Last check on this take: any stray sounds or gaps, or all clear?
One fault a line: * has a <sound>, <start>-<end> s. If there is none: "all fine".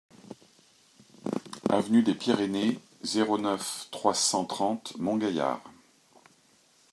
all fine